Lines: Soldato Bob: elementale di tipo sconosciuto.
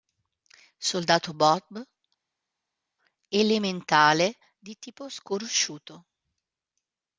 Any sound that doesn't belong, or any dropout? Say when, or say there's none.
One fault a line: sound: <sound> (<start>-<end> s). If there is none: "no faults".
no faults